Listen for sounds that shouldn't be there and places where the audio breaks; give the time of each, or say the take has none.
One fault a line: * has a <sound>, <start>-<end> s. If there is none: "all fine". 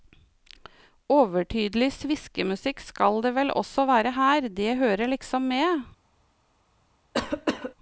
* has a cough, 7.1-7.7 s